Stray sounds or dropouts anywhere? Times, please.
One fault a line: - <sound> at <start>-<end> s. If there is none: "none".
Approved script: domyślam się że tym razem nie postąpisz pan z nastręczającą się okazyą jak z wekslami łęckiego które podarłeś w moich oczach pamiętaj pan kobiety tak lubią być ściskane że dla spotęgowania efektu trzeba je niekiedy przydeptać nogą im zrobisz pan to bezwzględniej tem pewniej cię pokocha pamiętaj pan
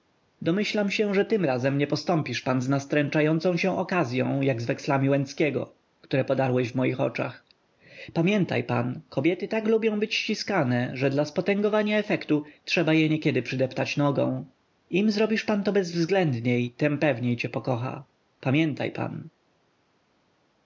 none